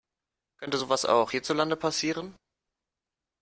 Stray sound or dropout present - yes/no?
no